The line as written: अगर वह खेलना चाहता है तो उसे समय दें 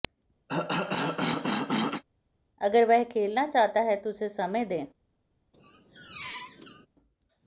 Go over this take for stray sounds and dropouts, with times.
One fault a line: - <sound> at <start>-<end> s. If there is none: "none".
- cough at 0.5-2.0 s
- squeak at 5.5-6.9 s